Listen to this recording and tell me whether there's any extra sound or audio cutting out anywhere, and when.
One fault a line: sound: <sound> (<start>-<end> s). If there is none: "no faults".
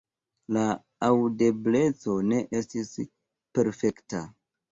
no faults